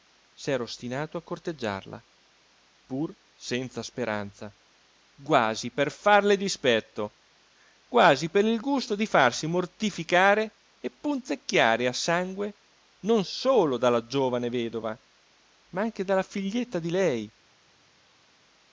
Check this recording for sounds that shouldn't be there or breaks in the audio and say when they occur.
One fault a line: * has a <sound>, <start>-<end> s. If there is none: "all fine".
all fine